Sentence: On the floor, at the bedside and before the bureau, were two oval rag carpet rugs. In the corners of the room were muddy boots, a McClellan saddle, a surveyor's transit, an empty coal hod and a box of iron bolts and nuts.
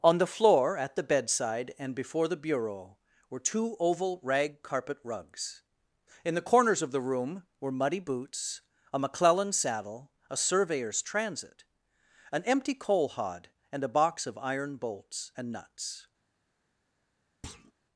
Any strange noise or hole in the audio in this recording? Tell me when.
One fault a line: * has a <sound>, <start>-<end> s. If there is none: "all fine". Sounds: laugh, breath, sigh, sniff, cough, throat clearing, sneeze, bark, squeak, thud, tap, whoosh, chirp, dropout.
* has a thud, 17.4-17.7 s